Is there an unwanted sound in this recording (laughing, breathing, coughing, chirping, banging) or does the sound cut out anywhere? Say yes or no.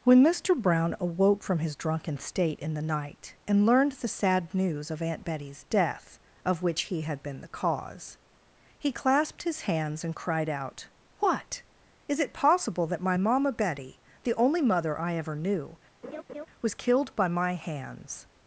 yes